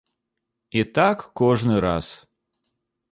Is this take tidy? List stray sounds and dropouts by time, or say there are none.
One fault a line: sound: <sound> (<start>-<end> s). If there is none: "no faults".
no faults